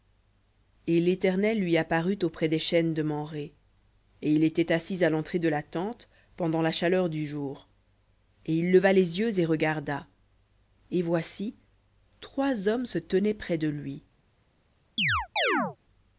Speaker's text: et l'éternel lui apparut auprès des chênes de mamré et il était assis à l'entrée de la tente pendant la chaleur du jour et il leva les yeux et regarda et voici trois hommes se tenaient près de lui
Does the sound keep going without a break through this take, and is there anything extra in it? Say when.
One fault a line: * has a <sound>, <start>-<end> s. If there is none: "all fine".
* has a chirp, 15.0-15.8 s